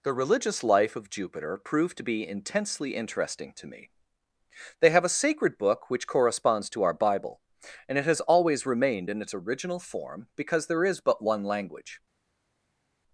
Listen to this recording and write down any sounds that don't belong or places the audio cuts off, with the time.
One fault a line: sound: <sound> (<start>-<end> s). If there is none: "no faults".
no faults